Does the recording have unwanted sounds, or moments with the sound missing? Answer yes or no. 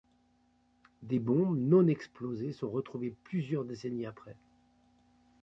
no